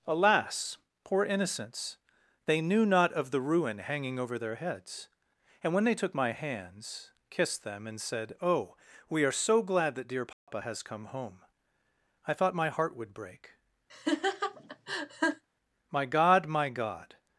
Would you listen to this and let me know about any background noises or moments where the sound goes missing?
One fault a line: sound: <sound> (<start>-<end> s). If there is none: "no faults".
sound: dropout (10.3-10.5 s)
sound: laugh (13.9-15.4 s)